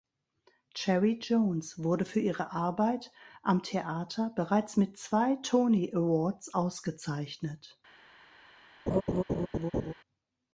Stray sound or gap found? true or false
true